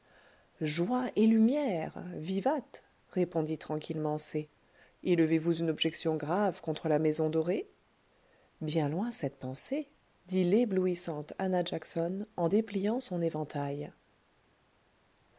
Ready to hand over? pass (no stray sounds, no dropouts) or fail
pass